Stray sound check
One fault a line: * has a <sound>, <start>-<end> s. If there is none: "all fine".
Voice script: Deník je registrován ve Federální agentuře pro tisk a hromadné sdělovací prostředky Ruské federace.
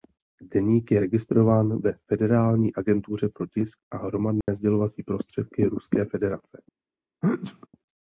* has a dropout, 4.4-4.5 s
* has a sneeze, 7.2-7.7 s